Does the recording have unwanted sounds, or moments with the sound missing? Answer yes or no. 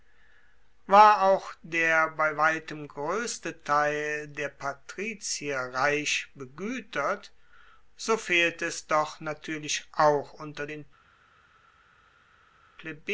no